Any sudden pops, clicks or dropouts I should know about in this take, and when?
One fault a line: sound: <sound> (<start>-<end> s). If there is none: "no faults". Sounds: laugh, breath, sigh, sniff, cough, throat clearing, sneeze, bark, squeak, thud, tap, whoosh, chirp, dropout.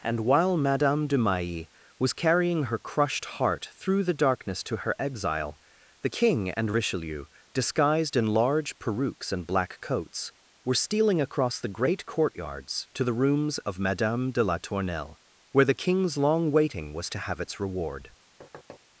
sound: thud (18.4-18.8 s)